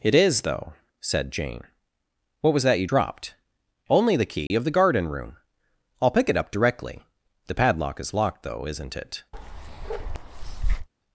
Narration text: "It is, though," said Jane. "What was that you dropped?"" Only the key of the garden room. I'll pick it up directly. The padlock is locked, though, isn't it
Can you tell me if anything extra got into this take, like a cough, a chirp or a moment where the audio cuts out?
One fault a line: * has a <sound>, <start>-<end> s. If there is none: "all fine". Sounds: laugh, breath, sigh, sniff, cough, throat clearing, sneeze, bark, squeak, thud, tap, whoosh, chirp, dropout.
* has a dropout, 4.5-4.5 s
* has a bark, 9.3-10.9 s